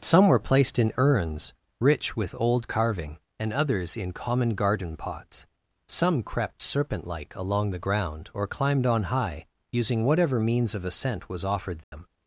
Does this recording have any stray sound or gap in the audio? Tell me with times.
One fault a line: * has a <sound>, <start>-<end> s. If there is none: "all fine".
* has a dropout, 11.8-11.9 s